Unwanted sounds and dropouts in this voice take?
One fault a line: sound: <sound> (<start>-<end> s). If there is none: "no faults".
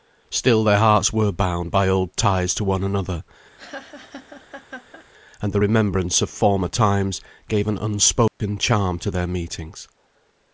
sound: laugh (3.6-5.1 s)
sound: dropout (8.3-8.4 s)